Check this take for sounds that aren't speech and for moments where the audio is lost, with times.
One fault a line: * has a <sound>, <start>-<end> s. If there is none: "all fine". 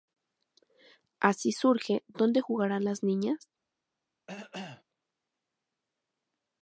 * has a cough, 4.3-4.8 s